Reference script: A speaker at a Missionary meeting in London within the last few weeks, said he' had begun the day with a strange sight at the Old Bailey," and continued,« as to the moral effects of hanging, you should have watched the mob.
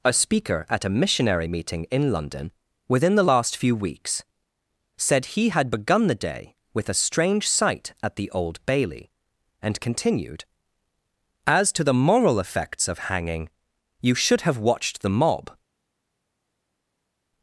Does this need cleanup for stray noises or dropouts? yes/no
no